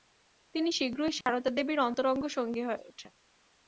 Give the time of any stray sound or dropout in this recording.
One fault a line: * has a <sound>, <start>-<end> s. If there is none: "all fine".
* has a dropout, 1.2-1.3 s